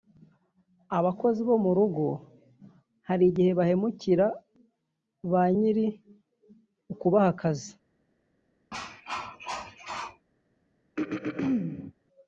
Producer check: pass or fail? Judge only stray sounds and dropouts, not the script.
fail